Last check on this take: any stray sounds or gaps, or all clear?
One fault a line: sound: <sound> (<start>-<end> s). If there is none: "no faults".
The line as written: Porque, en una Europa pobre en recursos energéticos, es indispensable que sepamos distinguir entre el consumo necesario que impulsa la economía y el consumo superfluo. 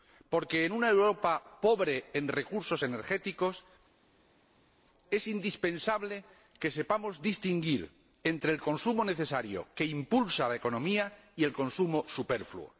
no faults